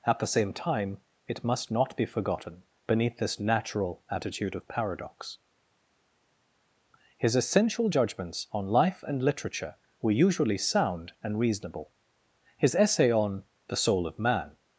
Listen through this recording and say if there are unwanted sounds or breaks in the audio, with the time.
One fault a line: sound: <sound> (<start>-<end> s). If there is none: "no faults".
no faults